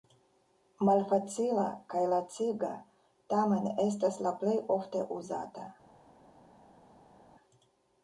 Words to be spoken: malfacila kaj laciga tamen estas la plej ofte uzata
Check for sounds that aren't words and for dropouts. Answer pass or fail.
pass